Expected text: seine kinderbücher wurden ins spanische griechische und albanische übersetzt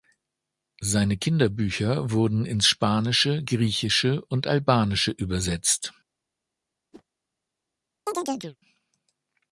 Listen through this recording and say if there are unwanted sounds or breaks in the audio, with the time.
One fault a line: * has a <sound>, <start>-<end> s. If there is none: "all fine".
* has a whoosh, 6.9-7.0 s
* has a chirp, 8.1-8.6 s